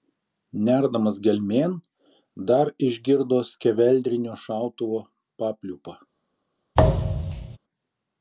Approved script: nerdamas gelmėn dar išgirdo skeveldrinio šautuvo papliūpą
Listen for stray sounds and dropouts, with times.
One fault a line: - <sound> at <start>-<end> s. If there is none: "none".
- thud at 6.7-7.6 s